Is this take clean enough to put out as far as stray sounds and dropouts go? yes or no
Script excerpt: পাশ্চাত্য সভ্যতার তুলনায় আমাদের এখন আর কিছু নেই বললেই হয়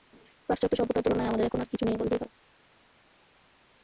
yes